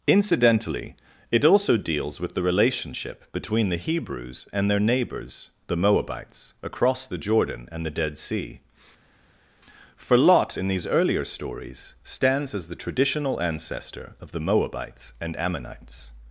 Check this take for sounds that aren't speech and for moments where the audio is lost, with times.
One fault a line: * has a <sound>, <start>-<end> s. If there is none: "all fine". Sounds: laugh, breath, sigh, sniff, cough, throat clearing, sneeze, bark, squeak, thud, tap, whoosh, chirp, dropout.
all fine